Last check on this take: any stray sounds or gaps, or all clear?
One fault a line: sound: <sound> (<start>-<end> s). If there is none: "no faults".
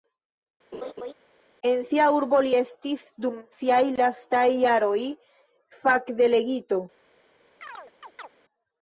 sound: laugh (0.7-1.1 s)
sound: chirp (7.6-8.3 s)